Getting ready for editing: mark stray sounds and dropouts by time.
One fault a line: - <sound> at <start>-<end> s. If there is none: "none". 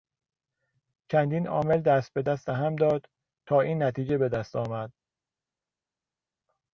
none